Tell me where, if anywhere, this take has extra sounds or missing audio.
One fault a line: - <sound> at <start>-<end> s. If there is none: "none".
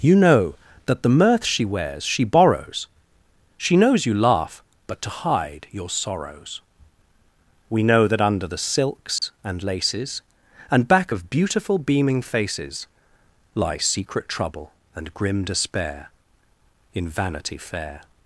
- dropout at 9.2-9.2 s